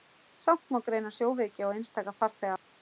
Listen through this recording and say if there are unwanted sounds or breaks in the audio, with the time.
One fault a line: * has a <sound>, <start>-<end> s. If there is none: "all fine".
all fine